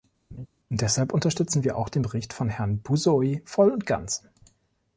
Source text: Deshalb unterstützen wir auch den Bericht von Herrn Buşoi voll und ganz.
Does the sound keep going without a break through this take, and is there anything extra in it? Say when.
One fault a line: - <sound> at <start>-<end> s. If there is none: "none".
- laugh at 0.3-0.5 s